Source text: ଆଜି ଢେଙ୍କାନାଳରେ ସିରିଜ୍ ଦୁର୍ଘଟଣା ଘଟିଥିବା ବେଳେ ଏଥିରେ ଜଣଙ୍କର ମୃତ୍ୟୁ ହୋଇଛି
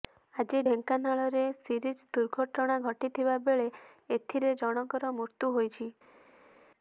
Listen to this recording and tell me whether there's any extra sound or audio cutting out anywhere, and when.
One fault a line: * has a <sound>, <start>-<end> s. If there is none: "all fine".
all fine